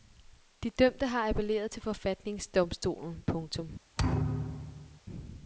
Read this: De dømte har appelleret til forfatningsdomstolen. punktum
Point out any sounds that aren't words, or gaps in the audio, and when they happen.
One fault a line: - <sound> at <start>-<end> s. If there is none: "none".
- thud at 4.0-5.0 s